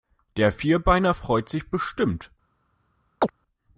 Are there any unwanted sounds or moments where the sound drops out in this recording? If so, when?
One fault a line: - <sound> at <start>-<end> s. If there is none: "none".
- chirp at 3.2-3.3 s